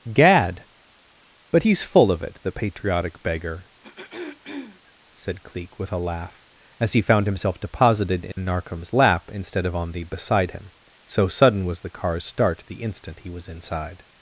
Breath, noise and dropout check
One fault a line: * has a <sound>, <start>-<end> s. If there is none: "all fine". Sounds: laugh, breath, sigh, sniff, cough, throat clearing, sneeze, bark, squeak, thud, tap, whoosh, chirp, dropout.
* has a throat clearing, 3.8-4.9 s
* has a dropout, 8.3-8.4 s